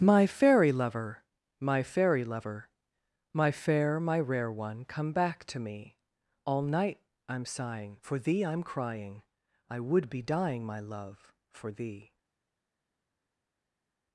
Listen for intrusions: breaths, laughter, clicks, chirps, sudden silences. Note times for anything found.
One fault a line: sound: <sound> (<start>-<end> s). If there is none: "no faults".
no faults